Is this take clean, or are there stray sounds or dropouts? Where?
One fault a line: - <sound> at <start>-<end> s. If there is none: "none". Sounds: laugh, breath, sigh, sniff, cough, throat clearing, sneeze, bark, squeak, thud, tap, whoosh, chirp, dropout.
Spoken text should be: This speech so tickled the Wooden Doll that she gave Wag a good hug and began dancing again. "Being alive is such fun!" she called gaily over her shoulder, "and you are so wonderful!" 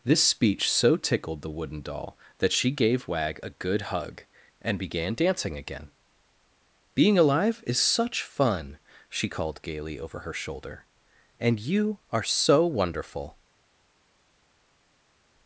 none